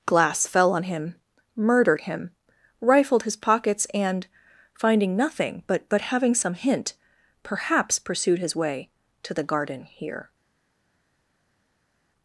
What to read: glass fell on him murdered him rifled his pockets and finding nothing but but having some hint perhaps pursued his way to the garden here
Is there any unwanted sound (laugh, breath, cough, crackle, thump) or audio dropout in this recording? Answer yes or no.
no